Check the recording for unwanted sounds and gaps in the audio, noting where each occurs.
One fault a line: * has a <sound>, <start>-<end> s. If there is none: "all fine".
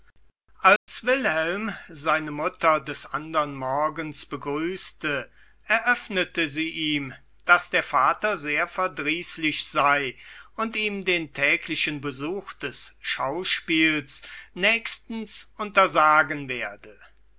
* has a dropout, 0.8-0.9 s